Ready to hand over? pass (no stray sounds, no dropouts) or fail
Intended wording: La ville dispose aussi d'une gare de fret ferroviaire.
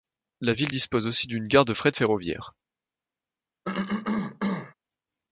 fail